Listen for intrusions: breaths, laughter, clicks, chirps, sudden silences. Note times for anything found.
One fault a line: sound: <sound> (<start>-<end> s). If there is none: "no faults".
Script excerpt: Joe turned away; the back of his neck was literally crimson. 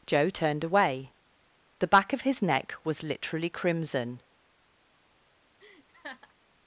sound: laugh (5.6-6.3 s)